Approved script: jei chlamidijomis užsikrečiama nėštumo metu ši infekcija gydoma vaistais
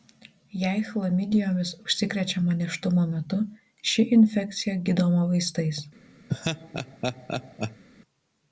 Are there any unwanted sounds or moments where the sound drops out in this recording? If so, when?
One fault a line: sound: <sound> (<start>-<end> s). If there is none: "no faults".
sound: laugh (6.3-7.8 s)